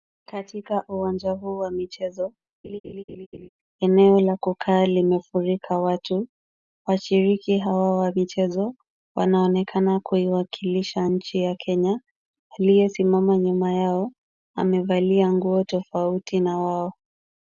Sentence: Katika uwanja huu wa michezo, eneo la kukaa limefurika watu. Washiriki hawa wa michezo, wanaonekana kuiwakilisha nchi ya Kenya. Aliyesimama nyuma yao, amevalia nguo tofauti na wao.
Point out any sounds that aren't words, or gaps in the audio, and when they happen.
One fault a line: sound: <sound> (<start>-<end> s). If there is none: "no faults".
sound: laugh (2.6-3.5 s)